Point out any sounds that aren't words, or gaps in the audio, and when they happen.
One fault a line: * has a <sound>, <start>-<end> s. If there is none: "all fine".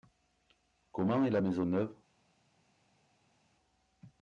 all fine